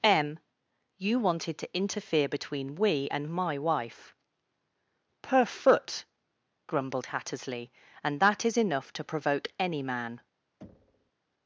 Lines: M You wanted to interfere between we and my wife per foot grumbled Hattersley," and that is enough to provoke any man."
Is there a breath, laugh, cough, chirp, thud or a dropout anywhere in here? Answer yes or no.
yes